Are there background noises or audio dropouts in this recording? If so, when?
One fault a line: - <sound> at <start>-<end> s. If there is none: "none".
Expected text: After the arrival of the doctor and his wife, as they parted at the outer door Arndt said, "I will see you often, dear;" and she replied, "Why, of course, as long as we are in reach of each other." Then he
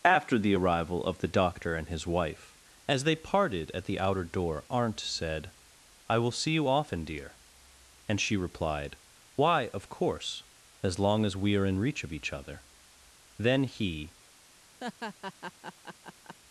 - laugh at 14.8-16.4 s